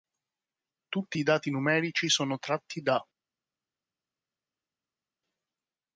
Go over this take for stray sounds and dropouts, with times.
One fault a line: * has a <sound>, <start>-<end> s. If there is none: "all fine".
all fine